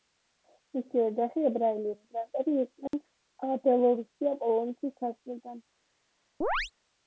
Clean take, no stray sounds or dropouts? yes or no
no